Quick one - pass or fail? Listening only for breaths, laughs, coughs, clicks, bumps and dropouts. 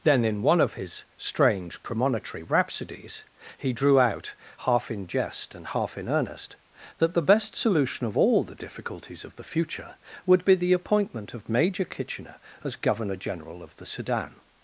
pass